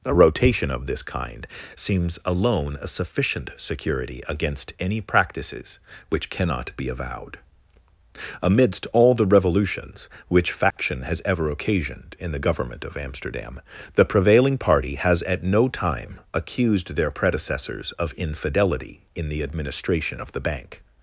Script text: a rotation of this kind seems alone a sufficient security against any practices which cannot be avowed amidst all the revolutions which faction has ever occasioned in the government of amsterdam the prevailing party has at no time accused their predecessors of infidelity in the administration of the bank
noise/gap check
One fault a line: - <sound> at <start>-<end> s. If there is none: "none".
- dropout at 10.7-10.8 s